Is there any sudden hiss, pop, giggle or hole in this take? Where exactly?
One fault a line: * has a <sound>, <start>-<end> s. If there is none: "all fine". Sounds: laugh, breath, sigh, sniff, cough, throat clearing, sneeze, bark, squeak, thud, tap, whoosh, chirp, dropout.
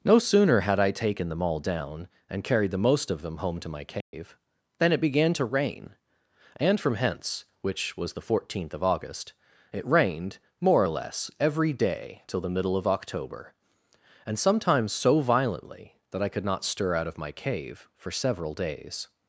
* has a dropout, 4.0-4.1 s